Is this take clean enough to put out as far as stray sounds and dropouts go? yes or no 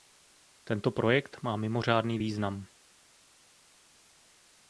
yes